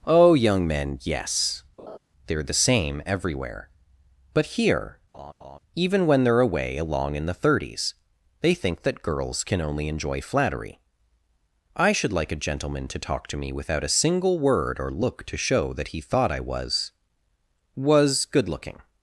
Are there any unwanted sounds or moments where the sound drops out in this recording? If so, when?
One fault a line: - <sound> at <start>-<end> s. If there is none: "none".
- laugh at 1.8-2.0 s
- laugh at 5.1-5.6 s